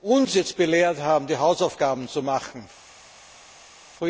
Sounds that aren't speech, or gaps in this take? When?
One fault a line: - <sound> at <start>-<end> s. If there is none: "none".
none